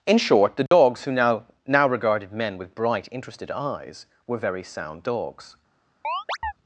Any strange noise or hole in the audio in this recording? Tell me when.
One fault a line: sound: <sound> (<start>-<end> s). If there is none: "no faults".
sound: dropout (0.7-0.7 s)
sound: chirp (6.0-6.5 s)